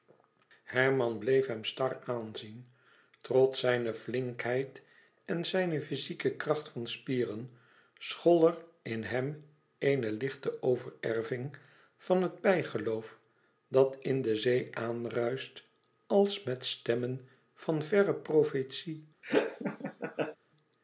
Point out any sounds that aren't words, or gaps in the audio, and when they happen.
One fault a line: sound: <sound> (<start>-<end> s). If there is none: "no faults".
sound: laugh (19.2-20.4 s)